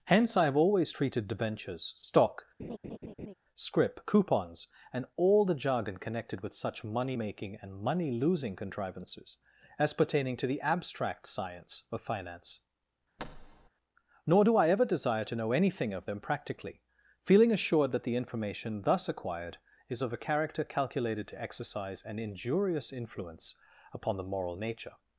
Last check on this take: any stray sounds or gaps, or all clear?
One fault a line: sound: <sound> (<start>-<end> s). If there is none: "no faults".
sound: laugh (2.6-3.3 s)
sound: thud (13.2-13.7 s)